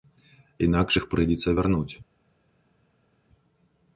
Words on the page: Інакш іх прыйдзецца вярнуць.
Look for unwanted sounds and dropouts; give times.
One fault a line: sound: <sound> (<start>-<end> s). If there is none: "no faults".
no faults